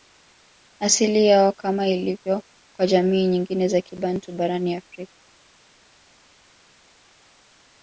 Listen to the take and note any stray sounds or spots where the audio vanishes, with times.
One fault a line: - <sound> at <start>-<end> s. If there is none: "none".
none